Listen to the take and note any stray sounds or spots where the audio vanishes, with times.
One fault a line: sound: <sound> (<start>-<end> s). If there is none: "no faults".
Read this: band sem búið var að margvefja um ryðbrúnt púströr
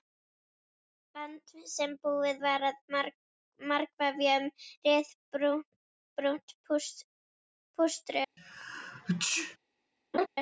sound: sneeze (8.4-9.6 s)
sound: laugh (10.1-10.3 s)